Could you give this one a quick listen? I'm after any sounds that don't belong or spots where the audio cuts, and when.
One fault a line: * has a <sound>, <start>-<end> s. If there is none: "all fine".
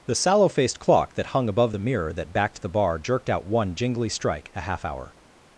all fine